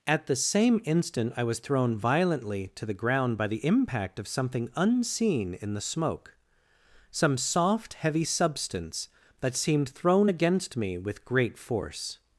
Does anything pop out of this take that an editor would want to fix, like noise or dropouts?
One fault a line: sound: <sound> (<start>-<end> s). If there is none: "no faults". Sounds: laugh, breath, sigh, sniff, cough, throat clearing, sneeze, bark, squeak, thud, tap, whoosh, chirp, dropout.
no faults